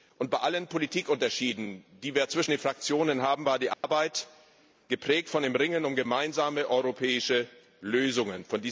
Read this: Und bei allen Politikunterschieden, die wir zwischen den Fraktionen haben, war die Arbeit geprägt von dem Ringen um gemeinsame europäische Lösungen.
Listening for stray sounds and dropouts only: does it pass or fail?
fail